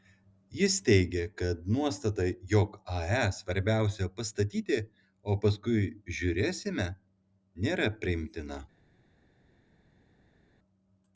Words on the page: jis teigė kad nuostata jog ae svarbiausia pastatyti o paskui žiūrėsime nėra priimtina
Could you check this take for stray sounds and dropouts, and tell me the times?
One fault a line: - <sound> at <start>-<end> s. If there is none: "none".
none